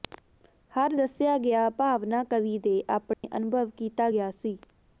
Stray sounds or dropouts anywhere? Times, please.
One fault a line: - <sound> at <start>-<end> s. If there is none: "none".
- dropout at 3.1-3.2 s